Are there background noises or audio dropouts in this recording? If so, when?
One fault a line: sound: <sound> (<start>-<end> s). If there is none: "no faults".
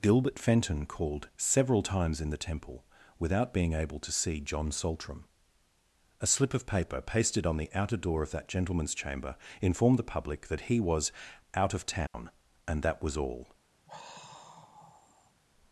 sound: dropout (12.1-12.1 s)
sound: sigh (13.9-15.3 s)